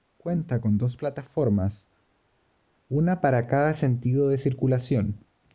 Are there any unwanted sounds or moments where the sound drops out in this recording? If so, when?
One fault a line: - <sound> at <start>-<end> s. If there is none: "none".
none